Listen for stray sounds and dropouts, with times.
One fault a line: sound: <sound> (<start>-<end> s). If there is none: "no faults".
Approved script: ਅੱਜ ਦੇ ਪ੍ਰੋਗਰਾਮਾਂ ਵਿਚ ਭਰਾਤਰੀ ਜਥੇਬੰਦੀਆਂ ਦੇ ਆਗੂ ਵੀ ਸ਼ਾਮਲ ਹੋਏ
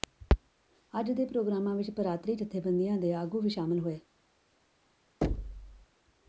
sound: thud (5.2-5.9 s)